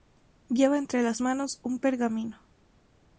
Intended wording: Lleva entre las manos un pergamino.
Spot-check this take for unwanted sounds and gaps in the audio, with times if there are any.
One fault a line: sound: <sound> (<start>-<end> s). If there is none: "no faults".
no faults